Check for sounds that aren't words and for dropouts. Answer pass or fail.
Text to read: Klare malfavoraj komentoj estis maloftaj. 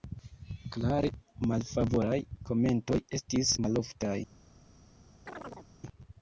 fail